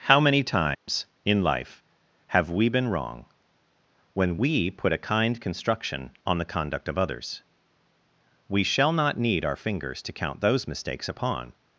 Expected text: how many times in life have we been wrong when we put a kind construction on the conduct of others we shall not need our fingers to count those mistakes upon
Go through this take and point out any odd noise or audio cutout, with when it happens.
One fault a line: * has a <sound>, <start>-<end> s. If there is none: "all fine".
* has a dropout, 0.7-0.9 s